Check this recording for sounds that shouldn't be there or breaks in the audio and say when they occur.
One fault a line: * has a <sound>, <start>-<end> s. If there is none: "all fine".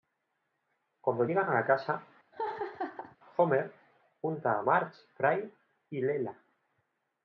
* has a laugh, 2.3-3.2 s